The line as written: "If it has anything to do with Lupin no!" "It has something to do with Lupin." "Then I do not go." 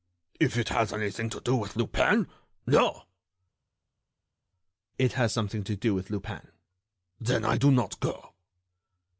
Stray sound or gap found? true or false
false